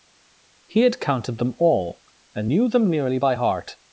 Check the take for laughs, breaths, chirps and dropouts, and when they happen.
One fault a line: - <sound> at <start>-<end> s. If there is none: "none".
none